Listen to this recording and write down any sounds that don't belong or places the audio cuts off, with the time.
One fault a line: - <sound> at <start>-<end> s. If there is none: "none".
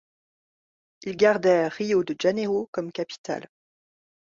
none